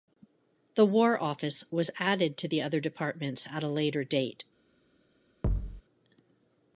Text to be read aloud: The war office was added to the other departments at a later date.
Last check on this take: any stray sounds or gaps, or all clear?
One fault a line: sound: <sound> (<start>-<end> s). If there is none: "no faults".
sound: thud (5.4-5.8 s)